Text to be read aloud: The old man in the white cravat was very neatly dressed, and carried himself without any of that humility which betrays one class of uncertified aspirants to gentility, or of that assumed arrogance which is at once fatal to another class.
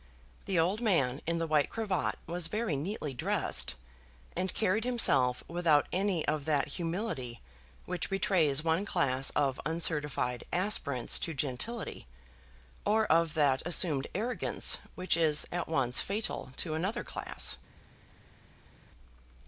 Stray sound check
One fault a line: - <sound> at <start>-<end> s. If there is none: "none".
none